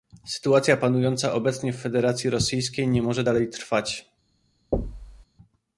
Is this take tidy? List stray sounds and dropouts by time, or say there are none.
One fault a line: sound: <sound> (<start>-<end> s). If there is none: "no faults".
sound: thud (4.7-5.3 s)